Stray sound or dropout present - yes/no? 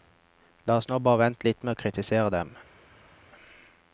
no